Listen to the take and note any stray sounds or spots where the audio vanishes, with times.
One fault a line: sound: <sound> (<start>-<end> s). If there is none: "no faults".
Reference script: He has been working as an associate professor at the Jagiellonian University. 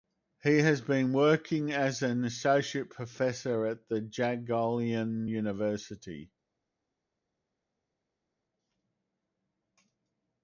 no faults